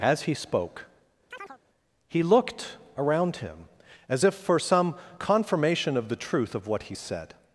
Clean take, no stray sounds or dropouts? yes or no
no